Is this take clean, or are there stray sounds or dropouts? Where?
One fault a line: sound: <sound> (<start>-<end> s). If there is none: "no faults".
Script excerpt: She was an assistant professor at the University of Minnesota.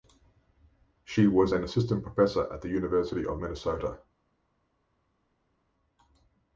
no faults